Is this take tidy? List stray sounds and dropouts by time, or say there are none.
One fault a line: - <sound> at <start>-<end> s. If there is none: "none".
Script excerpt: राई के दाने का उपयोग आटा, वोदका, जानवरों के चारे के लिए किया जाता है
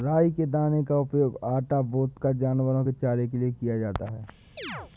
- chirp at 4.6-4.9 s